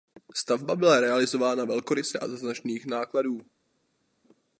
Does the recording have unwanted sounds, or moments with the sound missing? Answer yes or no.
no